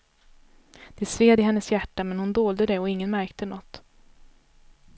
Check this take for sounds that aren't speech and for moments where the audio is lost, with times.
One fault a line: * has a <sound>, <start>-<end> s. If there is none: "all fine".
all fine